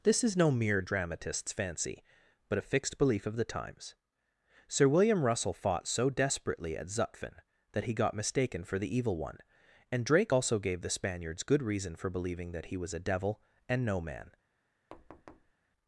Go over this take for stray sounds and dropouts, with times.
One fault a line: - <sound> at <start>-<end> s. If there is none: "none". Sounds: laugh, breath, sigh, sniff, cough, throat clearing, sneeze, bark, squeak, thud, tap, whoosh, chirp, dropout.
- thud at 14.9-15.5 s